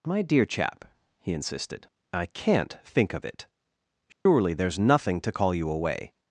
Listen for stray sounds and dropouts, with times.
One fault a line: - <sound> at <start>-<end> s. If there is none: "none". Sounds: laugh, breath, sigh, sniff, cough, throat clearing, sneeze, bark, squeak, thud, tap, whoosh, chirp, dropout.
- dropout at 4.1-4.3 s